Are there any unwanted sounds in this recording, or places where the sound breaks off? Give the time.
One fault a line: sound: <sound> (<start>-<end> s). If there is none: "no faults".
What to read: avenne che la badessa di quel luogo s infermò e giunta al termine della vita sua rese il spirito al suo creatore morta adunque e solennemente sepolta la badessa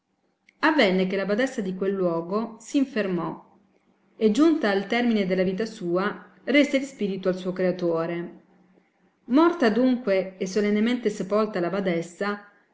no faults